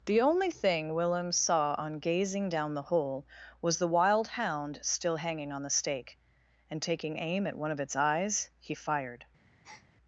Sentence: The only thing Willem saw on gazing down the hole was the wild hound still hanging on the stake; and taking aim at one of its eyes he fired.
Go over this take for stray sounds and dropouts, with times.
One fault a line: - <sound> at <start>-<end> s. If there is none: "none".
- breath at 9.6-9.9 s